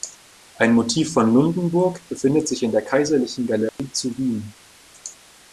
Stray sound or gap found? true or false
true